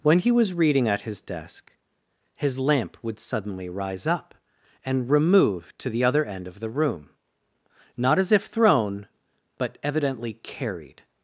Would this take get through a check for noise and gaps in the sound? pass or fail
pass